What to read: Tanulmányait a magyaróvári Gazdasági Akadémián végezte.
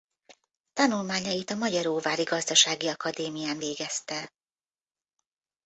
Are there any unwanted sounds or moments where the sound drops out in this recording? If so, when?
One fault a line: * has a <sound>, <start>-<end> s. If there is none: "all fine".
all fine